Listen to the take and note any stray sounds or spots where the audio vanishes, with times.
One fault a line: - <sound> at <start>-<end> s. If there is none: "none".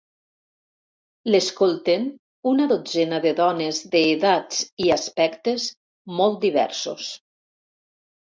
none